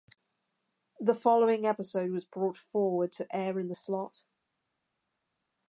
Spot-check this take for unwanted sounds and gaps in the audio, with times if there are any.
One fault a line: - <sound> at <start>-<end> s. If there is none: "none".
none